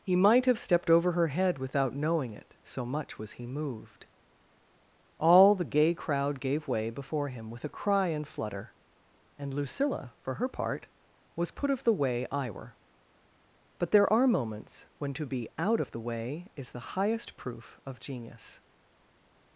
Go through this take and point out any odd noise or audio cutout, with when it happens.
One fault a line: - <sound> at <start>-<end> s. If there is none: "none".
none